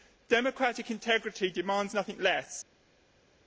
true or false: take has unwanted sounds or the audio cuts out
false